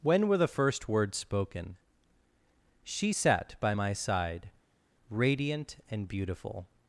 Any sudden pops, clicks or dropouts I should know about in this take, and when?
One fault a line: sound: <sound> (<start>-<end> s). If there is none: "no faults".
no faults